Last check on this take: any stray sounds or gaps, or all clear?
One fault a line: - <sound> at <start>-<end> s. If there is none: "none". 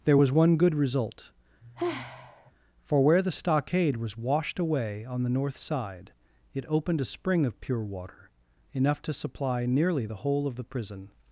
- sigh at 1.6-2.5 s